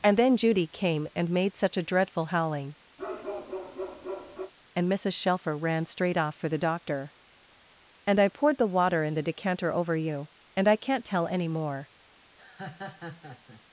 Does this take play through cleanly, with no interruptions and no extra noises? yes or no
no